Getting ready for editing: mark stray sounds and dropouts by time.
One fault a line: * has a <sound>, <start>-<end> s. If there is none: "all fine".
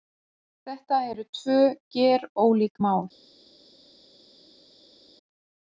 all fine